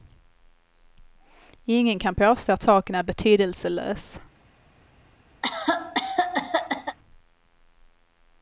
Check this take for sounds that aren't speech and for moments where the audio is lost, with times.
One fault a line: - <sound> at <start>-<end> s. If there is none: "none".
- cough at 5.4-7.0 s